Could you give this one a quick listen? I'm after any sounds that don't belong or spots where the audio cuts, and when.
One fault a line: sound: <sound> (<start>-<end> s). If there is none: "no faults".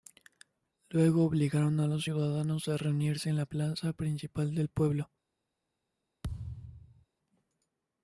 sound: thud (6.2-7.1 s)